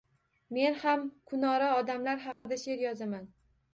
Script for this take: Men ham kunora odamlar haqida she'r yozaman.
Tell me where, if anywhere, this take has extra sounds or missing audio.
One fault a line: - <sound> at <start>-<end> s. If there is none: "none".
- dropout at 2.3-2.5 s